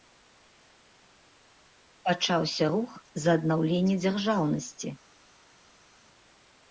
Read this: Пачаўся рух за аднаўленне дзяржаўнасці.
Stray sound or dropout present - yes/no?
no